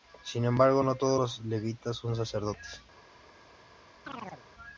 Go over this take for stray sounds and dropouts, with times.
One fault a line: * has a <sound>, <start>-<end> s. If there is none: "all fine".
* has a chirp, 4.1-4.4 s